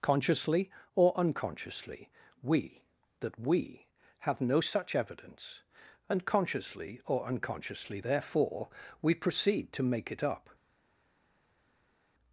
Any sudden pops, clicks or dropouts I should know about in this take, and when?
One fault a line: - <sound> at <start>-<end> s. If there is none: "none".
none